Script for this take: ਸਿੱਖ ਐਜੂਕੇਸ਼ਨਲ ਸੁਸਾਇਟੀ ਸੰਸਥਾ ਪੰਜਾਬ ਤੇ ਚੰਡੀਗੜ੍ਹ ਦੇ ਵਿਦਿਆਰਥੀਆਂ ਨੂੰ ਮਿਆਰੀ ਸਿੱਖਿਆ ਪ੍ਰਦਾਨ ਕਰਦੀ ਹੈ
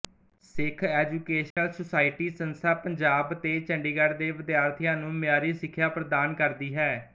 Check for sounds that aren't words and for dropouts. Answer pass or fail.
fail